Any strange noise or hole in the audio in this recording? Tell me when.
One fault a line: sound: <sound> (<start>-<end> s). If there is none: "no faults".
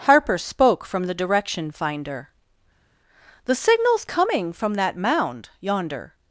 no faults